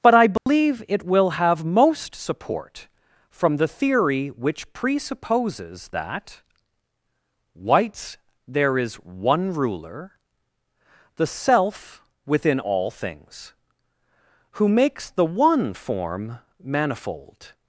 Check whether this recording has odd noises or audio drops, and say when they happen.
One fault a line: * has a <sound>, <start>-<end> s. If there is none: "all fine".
* has a dropout, 0.4-0.5 s